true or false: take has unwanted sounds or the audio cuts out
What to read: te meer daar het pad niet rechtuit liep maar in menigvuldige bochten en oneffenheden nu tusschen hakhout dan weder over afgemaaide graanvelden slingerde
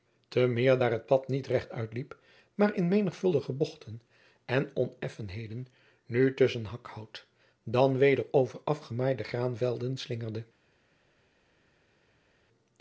false